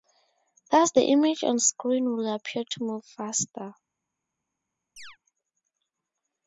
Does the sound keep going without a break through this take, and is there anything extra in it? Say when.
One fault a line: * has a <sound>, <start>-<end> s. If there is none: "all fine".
* has a chirp, 5.0-5.2 s